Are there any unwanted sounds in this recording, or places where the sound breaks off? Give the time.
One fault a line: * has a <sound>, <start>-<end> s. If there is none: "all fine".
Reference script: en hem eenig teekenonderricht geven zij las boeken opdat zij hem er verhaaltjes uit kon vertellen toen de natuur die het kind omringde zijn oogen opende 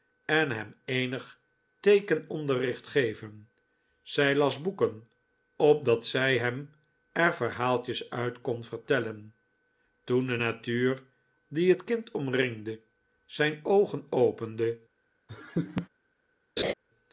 * has a laugh, 15.3-15.9 s
* has a laugh, 16.6-16.7 s